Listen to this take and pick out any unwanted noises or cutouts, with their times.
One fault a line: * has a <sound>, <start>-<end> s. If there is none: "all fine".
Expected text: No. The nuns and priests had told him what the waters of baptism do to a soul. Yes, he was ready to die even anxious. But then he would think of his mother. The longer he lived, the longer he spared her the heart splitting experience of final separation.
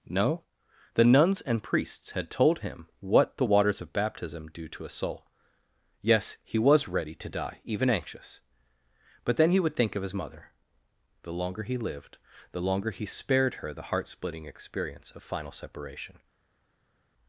all fine